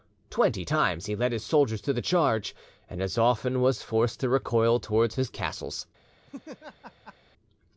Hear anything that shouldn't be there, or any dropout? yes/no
yes